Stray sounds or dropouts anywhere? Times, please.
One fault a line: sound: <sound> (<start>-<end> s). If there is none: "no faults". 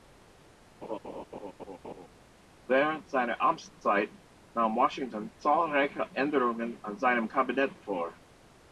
sound: laugh (0.8-2.1 s)